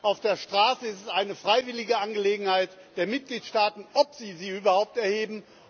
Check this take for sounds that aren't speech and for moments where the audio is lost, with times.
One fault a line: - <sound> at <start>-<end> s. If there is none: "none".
none